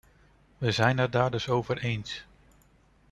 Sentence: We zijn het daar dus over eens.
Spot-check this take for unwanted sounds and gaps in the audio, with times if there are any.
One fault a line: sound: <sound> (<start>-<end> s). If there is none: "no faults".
no faults